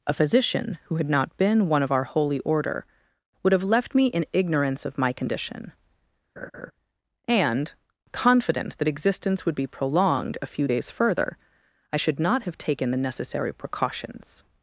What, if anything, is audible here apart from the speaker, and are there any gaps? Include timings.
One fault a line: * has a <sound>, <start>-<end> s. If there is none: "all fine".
* has a laugh, 6.4-6.7 s